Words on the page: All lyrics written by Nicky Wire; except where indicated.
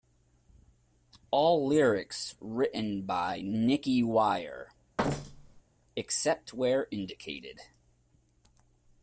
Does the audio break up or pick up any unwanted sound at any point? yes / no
yes